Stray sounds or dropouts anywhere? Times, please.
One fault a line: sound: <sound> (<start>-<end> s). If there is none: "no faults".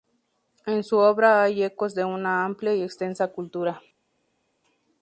no faults